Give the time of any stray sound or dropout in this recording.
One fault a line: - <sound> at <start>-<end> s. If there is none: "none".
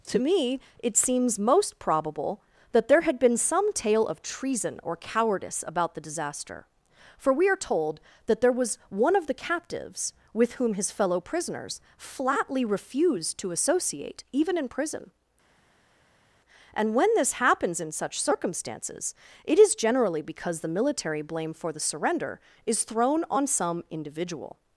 none